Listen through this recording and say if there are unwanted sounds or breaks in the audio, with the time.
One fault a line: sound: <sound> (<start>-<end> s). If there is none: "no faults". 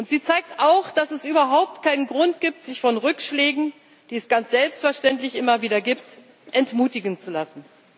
no faults